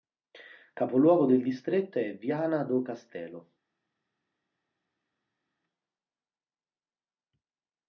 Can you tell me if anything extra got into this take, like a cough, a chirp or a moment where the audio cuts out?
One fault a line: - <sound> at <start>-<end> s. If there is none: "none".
none